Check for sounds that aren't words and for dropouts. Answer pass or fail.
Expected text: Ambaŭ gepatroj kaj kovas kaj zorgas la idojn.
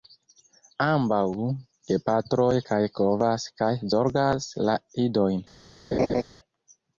fail